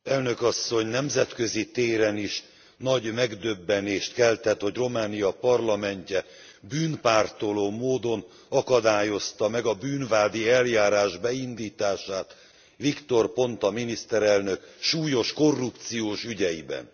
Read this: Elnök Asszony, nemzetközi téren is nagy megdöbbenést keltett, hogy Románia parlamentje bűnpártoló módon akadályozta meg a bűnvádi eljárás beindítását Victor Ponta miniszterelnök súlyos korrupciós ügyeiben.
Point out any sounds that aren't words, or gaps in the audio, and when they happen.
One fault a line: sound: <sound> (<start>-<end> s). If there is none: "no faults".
no faults